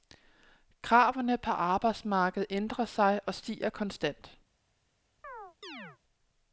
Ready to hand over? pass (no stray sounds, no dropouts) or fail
fail